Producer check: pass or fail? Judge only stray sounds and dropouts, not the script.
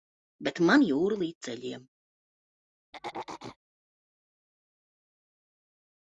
fail